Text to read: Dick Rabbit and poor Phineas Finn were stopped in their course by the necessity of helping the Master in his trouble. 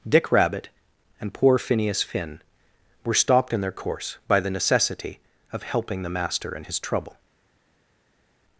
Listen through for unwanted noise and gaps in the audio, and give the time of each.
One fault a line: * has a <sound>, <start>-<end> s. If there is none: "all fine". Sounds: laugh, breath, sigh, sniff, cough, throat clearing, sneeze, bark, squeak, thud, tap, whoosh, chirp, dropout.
all fine